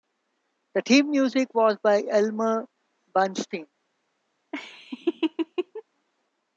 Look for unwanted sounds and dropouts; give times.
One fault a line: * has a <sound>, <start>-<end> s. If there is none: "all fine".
* has a laugh, 4.5-5.8 s